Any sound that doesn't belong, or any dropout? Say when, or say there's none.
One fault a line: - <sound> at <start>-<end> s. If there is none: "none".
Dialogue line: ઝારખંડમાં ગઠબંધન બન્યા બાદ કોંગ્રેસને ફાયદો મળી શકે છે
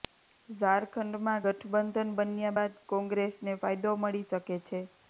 none